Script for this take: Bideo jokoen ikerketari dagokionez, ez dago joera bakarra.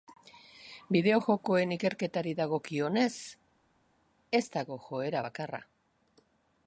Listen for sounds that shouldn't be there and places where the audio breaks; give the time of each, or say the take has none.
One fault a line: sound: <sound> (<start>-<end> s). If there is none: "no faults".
no faults